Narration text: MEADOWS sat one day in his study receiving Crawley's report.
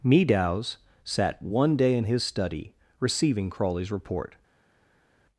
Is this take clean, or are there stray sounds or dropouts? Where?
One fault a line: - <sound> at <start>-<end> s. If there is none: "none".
none